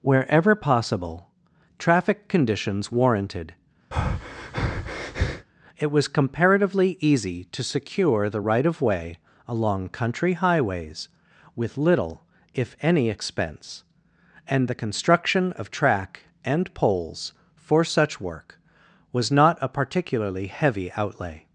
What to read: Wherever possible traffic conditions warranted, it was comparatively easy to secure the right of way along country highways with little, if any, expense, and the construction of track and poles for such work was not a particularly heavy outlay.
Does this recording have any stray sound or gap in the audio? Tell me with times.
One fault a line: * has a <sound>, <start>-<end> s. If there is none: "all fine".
* has a breath, 3.9-5.5 s